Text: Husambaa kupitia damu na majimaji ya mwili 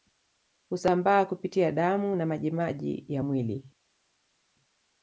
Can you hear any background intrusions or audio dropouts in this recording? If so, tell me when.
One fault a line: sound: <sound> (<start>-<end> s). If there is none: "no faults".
no faults